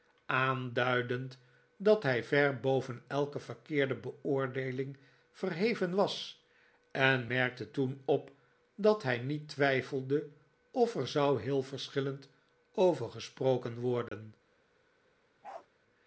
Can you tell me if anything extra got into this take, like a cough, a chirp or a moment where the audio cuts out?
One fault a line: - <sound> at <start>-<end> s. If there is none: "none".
- dropout at 14.1-14.1 s
- bark at 15.4-15.7 s